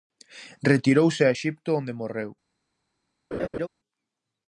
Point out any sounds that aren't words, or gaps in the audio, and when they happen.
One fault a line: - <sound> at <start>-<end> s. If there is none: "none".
- laugh at 3.3-3.7 s